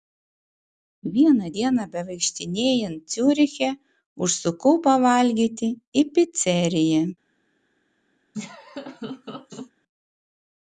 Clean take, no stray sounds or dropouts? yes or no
no